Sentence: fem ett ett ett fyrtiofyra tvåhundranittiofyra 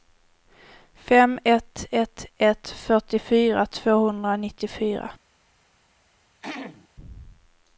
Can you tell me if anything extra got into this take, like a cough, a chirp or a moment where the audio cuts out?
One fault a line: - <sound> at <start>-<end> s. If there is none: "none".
- throat clearing at 6.4-6.9 s